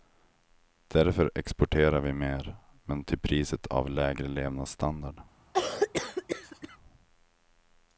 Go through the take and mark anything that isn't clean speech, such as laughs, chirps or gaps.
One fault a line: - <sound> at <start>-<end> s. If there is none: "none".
- cough at 5.5-6.8 s